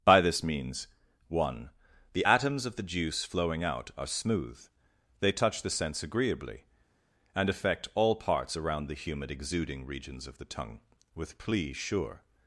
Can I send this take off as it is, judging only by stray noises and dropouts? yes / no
yes